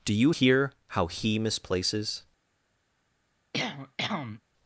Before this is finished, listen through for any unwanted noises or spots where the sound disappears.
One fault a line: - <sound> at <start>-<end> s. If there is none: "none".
- cough at 3.5-4.4 s